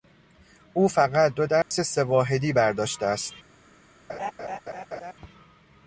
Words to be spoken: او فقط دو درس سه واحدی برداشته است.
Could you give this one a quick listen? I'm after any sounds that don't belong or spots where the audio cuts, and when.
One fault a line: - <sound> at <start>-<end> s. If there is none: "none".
- dropout at 1.6-1.7 s
- laugh at 4.1-5.1 s